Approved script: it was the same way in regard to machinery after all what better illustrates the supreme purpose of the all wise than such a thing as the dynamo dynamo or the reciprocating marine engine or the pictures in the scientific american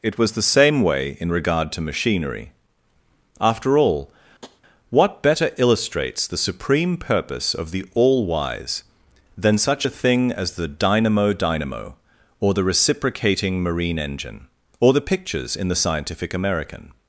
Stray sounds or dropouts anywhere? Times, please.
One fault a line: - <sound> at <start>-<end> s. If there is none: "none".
- tap at 4.4-4.6 s